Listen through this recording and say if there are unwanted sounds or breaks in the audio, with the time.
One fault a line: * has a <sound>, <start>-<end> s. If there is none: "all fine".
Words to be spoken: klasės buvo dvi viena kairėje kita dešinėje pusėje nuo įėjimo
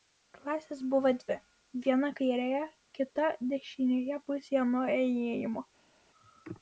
all fine